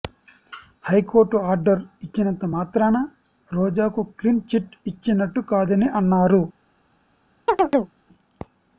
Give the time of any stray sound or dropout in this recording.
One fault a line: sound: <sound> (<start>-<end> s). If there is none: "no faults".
sound: chirp (7.5-8.0 s)